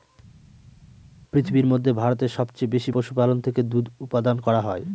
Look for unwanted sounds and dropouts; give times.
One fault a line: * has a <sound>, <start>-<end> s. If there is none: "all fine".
all fine